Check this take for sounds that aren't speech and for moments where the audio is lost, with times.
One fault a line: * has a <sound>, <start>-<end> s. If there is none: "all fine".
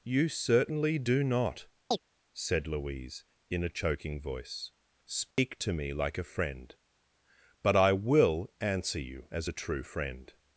* has a chirp, 1.9-2.0 s
* has a dropout, 5.3-5.4 s